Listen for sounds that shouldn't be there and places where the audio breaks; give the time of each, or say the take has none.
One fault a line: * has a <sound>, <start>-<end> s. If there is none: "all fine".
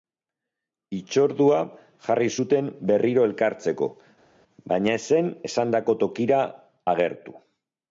all fine